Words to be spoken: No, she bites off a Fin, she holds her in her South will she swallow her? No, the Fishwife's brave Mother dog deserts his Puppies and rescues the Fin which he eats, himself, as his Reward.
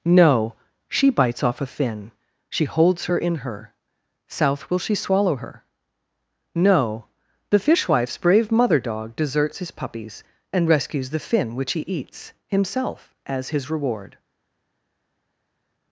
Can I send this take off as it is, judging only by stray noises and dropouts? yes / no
yes